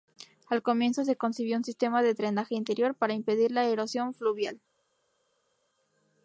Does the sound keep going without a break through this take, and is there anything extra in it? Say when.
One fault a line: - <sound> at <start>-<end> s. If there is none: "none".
none